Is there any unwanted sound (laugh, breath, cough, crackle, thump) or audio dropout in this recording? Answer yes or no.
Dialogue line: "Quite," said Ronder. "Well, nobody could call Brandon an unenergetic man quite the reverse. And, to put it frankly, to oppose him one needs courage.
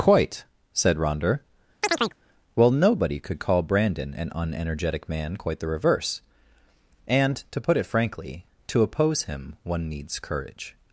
yes